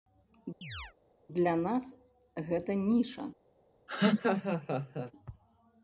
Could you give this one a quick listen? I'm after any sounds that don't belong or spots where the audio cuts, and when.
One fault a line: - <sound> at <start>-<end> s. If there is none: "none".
- chirp at 0.6-0.9 s
- laugh at 3.9-5.1 s